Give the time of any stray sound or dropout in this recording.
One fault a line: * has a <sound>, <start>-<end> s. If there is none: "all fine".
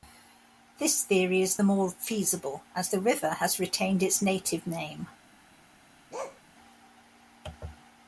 * has a bark, 6.1-6.4 s